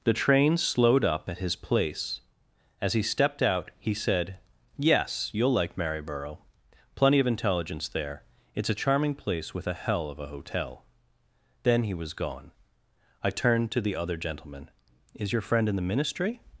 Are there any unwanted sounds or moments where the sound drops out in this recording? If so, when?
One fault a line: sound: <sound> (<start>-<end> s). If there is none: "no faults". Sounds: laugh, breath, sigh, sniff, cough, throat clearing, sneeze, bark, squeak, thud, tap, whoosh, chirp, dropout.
no faults